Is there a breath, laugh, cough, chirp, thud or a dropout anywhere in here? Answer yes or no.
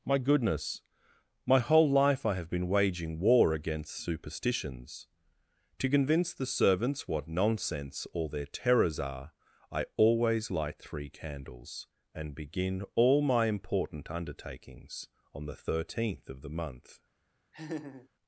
yes